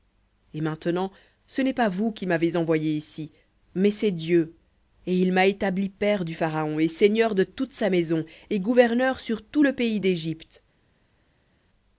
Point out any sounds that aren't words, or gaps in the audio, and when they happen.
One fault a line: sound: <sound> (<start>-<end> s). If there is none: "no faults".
no faults